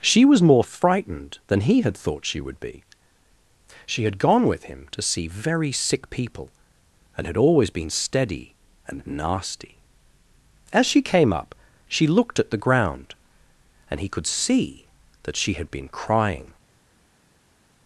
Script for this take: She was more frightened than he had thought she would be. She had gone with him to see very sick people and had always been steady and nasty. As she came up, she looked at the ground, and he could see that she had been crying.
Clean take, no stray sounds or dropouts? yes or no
yes